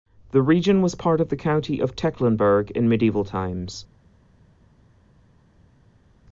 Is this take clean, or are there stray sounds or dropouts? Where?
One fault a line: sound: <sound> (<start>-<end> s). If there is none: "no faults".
no faults